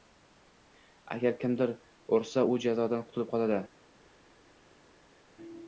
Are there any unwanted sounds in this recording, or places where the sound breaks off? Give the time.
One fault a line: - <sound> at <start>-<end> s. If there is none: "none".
none